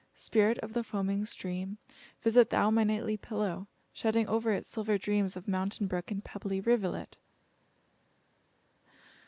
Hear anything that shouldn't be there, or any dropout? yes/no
no